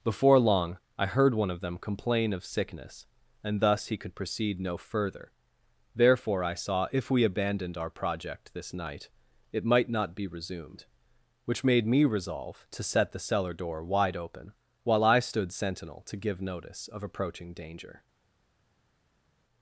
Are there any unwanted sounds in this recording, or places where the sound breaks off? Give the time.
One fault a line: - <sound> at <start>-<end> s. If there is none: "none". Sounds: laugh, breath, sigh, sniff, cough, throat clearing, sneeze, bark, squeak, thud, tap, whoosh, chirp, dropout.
none